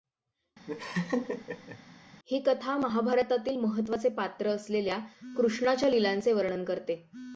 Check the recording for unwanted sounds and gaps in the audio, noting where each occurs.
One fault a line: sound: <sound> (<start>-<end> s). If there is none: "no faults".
sound: laugh (0.7-1.8 s)